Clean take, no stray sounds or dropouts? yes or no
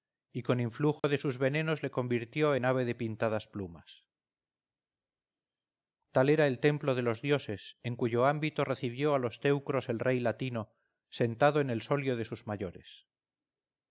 no